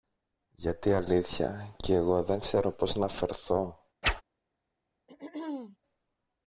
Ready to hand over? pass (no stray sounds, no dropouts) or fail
fail